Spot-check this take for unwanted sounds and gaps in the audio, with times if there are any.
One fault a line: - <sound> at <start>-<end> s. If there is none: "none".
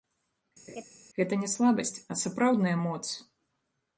- laugh at 0.7-0.8 s